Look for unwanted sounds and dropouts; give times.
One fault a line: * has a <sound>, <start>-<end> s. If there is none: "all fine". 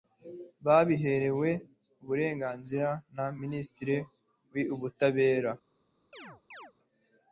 * has a chirp, 6.1-6.7 s